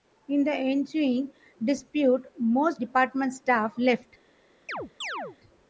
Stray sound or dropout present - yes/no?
yes